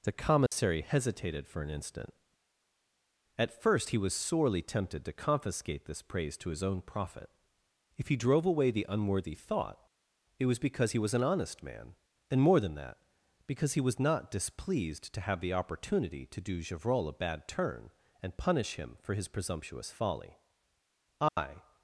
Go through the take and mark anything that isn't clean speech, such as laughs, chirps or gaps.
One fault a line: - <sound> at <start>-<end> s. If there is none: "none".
- dropout at 0.5-0.5 s
- dropout at 21.3-21.4 s